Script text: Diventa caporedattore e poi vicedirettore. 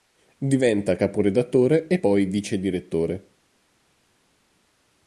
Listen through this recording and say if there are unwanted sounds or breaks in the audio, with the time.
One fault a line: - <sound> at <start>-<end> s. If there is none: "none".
none